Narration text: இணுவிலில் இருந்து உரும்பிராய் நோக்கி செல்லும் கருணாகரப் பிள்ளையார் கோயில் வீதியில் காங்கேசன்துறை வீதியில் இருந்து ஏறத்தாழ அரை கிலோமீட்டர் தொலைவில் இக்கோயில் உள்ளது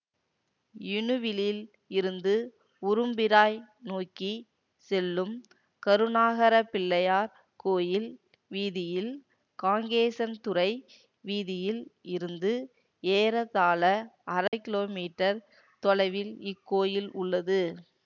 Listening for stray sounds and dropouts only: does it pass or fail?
fail